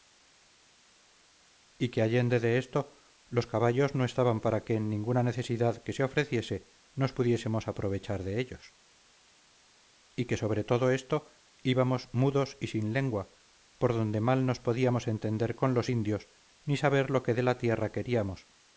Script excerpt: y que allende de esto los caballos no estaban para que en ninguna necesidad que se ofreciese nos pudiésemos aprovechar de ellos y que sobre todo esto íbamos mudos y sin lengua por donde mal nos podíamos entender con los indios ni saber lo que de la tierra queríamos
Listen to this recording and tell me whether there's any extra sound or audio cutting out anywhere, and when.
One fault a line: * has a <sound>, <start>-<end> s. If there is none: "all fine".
all fine